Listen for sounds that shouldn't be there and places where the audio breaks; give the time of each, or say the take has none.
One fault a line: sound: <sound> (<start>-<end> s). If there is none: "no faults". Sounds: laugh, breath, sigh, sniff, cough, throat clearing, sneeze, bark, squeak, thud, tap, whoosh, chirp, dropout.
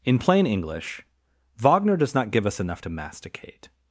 no faults